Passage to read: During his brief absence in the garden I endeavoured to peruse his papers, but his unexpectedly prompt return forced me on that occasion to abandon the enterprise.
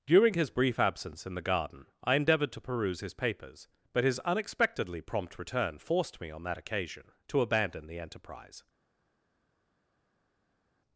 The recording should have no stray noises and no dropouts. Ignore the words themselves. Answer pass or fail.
pass